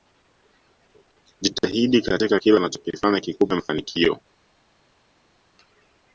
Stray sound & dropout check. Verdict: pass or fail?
pass